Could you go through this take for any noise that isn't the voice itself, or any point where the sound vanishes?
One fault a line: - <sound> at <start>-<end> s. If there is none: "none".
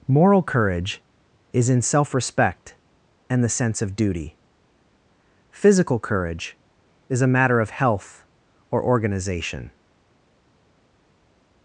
none